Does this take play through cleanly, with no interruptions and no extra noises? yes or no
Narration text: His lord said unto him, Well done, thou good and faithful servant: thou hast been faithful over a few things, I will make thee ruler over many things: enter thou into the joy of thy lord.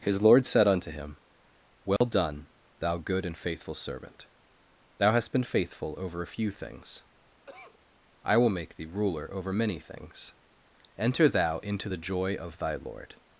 no